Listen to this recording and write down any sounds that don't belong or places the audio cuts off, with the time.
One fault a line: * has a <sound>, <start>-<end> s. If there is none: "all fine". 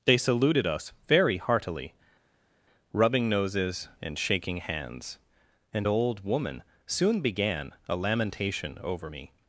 all fine